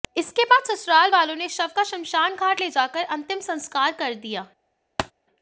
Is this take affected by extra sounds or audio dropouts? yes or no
yes